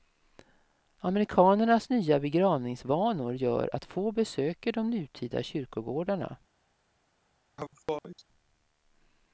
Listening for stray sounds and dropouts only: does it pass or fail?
fail